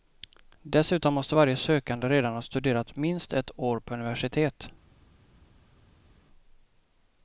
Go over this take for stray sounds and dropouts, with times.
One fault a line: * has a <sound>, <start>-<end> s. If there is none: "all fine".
all fine